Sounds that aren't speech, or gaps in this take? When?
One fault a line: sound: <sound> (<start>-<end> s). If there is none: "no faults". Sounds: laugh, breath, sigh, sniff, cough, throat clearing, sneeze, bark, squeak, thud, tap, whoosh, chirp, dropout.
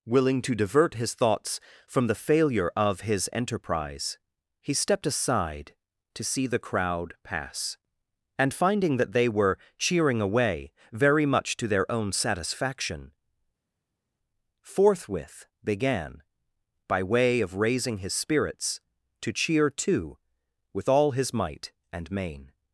no faults